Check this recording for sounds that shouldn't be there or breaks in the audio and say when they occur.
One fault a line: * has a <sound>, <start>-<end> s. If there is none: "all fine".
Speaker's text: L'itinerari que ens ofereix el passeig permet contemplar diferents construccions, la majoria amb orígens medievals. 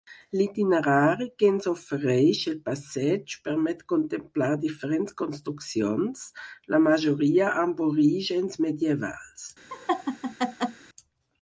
* has a laugh, 9.7-10.8 s